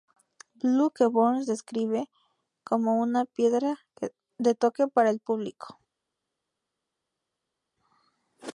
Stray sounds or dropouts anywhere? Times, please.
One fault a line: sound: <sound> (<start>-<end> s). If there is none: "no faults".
no faults